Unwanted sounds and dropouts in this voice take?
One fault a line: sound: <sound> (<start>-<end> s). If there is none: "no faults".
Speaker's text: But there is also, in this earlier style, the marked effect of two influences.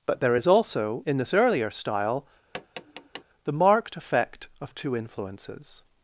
sound: tap (2.5-3.2 s)